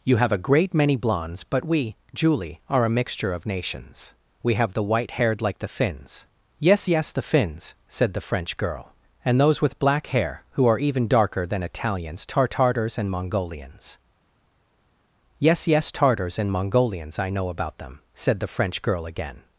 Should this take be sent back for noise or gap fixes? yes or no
no